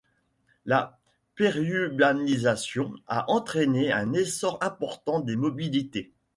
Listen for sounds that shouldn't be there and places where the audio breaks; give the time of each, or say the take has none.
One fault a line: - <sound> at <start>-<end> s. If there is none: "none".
none